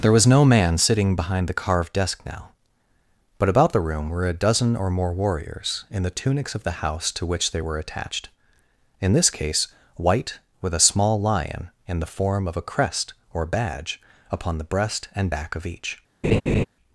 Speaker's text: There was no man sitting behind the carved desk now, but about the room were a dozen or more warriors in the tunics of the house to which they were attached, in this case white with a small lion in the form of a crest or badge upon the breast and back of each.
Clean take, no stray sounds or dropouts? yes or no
no